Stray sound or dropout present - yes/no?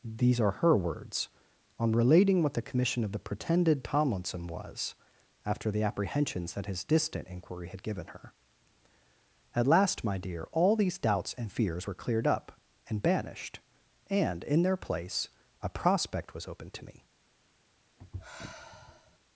yes